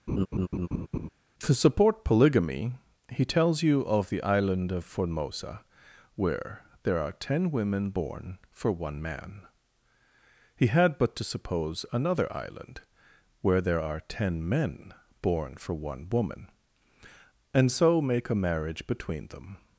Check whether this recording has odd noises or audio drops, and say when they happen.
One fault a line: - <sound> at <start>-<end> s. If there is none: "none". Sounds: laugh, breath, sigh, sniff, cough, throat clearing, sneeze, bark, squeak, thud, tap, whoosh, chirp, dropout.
- laugh at 0.1-1.1 s